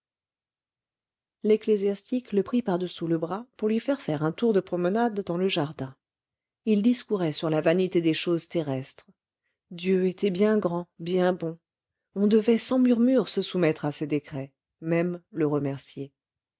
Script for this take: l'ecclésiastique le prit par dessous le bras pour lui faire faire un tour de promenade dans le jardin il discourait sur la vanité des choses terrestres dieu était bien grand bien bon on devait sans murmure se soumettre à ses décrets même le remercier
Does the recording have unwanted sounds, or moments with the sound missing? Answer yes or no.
no